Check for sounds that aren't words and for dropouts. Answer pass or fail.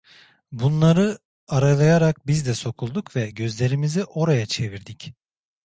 pass